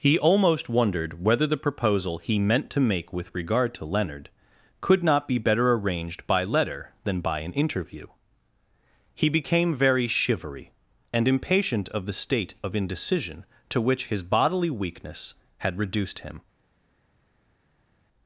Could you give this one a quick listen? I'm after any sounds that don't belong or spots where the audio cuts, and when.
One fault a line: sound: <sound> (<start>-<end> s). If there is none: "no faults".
no faults